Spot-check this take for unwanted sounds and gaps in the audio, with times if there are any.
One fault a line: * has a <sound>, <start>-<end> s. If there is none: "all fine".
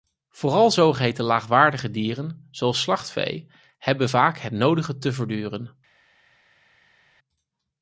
all fine